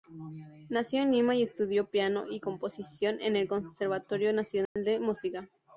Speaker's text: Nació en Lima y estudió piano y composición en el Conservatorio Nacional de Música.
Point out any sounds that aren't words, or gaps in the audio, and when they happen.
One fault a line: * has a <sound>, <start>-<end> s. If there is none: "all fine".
* has a dropout, 4.7-4.8 s